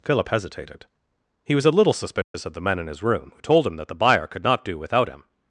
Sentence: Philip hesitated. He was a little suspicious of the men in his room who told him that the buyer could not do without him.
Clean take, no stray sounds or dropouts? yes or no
no